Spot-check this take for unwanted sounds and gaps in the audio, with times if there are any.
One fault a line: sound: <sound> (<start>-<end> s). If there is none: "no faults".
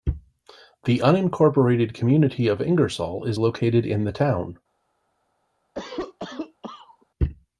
sound: cough (5.7-7.1 s)